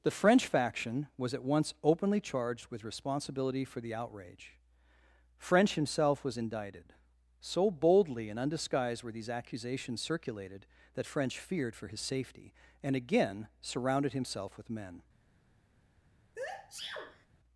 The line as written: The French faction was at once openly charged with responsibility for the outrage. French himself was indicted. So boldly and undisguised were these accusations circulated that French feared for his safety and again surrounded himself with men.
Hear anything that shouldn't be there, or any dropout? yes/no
yes